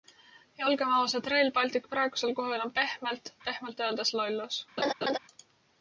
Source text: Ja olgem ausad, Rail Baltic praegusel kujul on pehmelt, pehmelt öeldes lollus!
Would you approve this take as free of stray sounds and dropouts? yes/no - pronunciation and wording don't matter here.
no